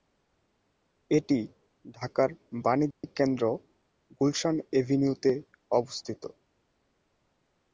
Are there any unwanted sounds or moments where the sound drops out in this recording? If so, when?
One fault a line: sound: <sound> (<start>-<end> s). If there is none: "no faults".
sound: dropout (2.9-3.0 s)